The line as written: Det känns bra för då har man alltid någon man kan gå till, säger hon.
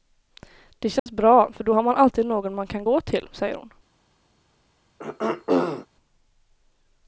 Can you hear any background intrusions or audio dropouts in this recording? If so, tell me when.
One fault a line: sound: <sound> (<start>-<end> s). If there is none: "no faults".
sound: dropout (1.0-1.1 s)
sound: throat clearing (5.0-5.9 s)